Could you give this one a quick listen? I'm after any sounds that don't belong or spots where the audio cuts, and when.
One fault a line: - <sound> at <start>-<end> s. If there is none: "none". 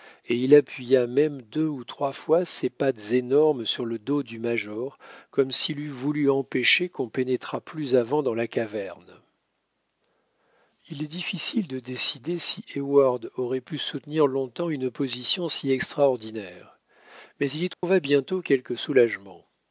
- dropout at 17.7-17.8 s